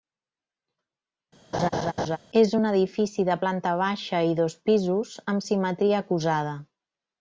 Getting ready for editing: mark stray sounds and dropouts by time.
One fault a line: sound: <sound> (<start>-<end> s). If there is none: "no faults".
sound: laugh (1.5-2.2 s)